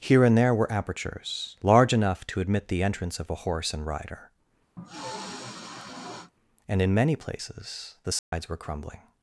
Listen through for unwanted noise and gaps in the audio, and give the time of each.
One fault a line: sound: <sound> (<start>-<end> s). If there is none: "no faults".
sound: sniff (4.8-6.3 s)
sound: dropout (8.2-8.3 s)